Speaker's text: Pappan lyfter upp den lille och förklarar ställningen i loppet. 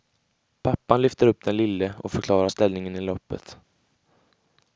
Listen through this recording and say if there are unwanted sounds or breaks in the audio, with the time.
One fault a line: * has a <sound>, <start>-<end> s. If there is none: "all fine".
all fine